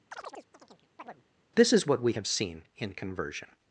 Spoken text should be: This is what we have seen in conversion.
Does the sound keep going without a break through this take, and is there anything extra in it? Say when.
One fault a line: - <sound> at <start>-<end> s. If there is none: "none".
- chirp at 0.1-1.2 s